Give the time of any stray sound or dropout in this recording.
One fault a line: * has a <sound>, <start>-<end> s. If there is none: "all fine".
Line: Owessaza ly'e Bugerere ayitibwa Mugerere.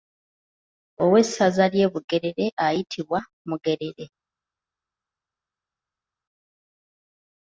all fine